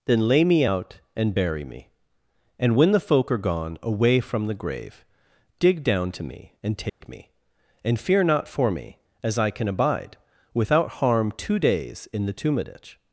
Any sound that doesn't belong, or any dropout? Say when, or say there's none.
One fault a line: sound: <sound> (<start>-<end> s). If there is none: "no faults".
sound: dropout (6.9-7.0 s)